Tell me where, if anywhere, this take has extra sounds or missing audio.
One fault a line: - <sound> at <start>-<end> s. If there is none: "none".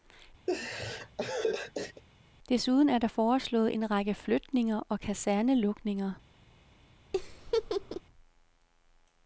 - laugh at 0.5-2.0 s
- laugh at 7.1-8.0 s